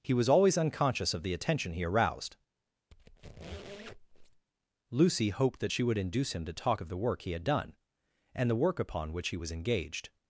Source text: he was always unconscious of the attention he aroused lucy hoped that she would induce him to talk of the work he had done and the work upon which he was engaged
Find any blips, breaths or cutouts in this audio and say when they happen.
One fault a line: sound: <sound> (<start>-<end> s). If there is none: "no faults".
sound: squeak (2.9-4.5 s)